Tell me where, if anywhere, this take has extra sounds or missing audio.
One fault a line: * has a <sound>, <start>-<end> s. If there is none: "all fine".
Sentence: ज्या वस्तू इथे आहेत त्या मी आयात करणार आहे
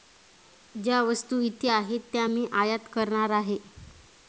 all fine